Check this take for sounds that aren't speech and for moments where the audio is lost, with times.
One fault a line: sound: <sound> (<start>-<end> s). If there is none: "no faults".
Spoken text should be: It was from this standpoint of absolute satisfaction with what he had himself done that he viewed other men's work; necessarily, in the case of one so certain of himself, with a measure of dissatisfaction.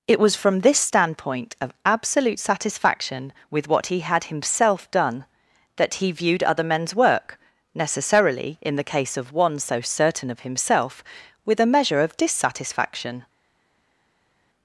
no faults